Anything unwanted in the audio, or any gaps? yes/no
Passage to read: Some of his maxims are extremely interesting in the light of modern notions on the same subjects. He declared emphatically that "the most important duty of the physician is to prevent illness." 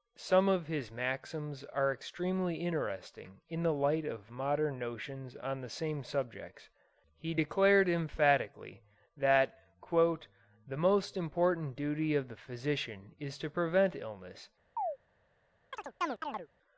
yes